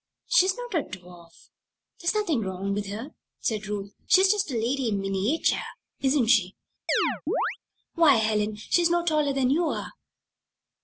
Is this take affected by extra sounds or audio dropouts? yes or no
yes